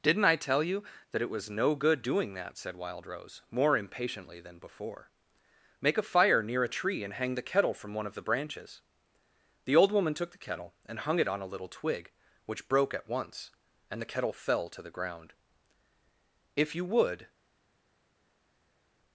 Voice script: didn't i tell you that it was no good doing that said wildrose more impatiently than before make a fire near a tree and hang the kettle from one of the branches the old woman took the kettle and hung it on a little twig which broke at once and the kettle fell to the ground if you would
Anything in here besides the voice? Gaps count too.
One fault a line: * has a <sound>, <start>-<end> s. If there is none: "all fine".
all fine